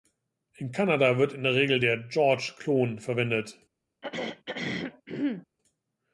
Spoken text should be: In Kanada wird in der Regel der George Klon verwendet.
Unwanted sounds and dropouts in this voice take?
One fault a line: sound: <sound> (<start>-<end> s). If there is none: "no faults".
sound: throat clearing (4.0-5.5 s)